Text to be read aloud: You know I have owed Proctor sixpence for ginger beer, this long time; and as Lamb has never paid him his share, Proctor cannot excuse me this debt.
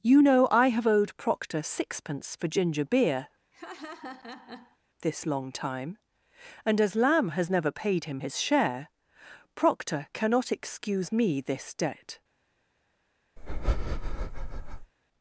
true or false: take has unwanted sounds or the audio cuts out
true